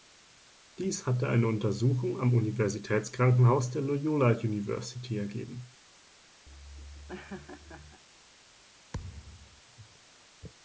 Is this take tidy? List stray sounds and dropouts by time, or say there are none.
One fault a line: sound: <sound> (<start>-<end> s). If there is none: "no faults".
sound: laugh (6.5-8.0 s)
sound: thud (8.9-9.6 s)